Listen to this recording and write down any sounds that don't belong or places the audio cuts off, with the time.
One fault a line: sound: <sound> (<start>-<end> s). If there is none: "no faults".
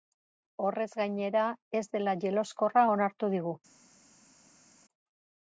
no faults